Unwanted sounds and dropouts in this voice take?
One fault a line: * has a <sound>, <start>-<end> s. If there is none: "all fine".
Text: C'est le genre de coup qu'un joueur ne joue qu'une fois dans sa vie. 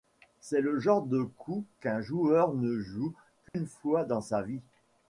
* has a dropout, 3.5-3.5 s